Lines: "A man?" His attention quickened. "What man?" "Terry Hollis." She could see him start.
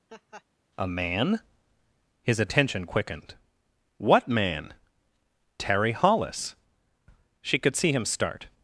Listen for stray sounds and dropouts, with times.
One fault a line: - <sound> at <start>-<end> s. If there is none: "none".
- laugh at 0.1-0.4 s